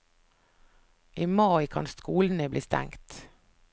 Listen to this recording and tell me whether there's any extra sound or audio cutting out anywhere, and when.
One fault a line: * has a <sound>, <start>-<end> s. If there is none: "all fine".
all fine